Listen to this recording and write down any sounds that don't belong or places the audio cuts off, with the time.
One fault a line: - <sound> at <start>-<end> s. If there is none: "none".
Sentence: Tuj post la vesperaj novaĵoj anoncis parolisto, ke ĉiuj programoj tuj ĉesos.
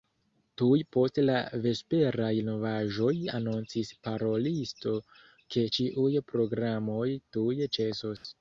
- dropout at 8.2-8.2 s